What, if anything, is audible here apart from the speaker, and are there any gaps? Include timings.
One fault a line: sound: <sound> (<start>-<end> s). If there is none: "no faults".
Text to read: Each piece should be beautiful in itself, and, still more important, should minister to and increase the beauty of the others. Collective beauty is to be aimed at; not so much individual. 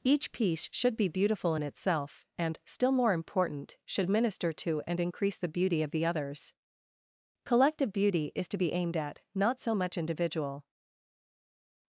no faults